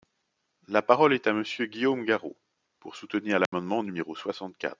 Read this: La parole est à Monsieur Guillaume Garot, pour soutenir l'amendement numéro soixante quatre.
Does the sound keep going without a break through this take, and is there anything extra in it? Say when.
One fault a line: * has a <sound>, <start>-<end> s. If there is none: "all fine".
* has a dropout, 3.5-3.5 s